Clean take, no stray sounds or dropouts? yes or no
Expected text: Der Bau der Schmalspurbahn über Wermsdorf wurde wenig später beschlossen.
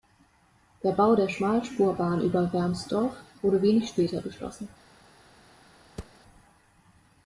no